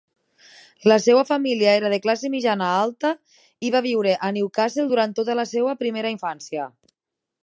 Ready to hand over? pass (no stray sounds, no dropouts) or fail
pass